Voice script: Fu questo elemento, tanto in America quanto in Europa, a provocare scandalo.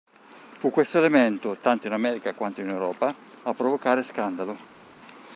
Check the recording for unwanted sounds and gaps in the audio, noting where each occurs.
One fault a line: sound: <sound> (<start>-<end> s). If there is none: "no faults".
no faults